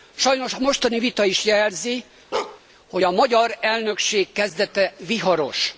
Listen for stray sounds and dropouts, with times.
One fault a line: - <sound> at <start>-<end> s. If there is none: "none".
- bark at 2.3-2.6 s